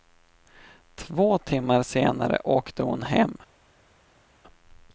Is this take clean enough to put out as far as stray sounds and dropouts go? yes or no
yes